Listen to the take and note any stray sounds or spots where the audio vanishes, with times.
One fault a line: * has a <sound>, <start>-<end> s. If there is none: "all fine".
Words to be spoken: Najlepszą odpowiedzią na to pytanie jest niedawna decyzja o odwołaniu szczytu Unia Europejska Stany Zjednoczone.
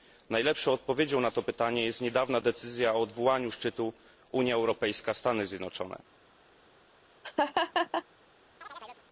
* has a laugh, 7.2-8.0 s
* has a chirp, 8.6-9.0 s